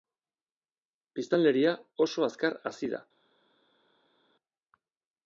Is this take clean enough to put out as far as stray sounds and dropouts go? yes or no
yes